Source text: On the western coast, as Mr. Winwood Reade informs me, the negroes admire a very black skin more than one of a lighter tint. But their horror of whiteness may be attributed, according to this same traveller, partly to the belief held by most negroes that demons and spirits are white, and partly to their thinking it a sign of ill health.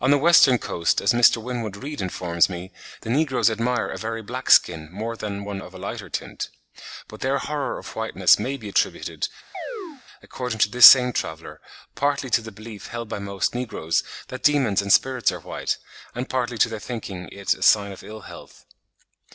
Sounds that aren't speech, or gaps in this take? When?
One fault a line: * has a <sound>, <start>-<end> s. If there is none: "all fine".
* has a chirp, 9.5-10.0 s